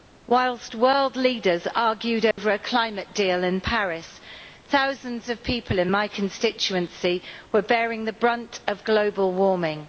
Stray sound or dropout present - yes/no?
yes